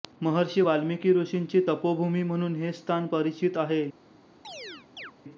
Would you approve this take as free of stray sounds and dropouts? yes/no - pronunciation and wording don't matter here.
no